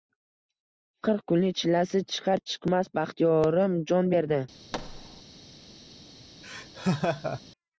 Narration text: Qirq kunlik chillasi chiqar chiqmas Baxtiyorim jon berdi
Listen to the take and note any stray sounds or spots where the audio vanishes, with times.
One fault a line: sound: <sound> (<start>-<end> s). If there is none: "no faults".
sound: thud (4.7-5.2 s)
sound: laugh (6.4-7.4 s)